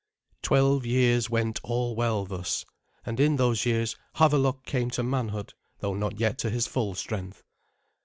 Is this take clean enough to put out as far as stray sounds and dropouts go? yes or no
yes